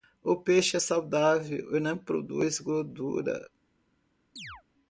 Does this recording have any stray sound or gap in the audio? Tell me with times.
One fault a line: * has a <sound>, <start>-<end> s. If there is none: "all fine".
* has a chirp, 4.4-4.6 s